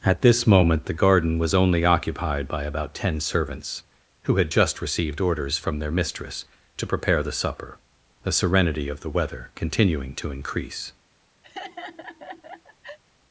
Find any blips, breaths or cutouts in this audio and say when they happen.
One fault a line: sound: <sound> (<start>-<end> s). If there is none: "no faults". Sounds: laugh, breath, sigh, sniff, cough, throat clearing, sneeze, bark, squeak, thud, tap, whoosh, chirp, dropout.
sound: laugh (11.4-13.0 s)